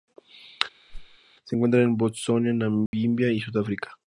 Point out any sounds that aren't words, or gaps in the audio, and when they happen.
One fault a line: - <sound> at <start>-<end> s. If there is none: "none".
- whoosh at 0.9-1.2 s
- dropout at 2.9-2.9 s